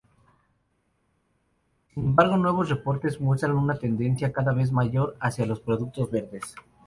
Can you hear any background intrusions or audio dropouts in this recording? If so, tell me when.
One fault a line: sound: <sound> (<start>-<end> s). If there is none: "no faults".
no faults